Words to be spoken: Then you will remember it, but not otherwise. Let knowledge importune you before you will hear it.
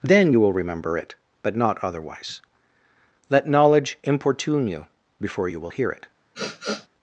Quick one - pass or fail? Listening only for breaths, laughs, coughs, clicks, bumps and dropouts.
fail